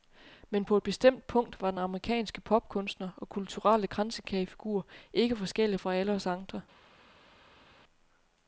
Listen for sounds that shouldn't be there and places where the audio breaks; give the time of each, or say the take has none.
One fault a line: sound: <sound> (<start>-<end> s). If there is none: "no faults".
no faults